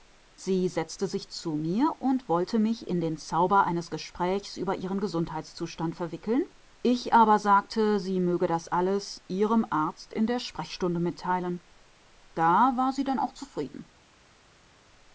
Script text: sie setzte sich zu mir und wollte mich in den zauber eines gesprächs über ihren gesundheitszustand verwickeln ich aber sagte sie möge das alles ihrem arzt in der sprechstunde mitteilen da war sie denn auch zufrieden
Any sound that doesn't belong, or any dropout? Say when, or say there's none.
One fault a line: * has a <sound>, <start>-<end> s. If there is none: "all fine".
all fine